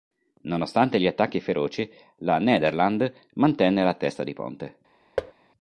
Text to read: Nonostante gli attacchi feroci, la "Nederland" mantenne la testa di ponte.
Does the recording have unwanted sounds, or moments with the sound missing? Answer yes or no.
yes